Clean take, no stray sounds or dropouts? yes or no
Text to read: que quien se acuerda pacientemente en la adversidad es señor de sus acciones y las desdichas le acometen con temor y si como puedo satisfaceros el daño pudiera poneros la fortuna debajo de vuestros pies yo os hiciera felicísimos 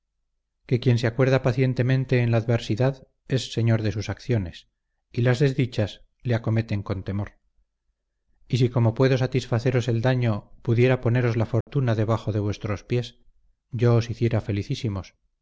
no